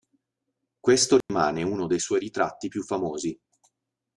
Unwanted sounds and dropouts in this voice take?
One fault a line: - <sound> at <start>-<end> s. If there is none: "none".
- dropout at 1.2-1.3 s